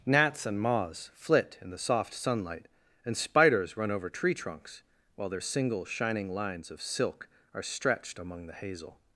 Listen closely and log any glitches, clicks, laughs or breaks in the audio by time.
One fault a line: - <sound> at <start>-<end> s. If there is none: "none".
none